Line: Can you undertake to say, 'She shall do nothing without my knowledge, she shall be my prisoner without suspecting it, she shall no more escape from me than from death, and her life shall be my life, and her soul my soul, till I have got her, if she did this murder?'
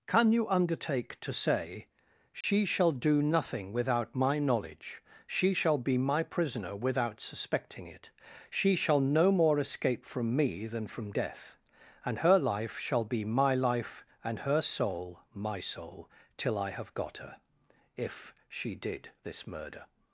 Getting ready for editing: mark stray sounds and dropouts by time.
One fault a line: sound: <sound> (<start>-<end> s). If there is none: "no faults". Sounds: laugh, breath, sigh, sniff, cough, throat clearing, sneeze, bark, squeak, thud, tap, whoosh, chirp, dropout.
sound: dropout (2.4-2.4 s)